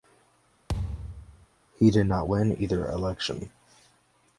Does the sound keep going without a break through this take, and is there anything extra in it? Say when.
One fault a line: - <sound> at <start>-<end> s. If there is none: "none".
- thud at 0.7-1.5 s